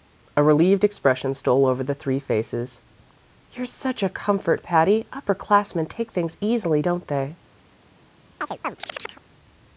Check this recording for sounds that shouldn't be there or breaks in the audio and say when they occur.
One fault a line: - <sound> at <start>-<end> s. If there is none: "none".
- chirp at 8.4-9.2 s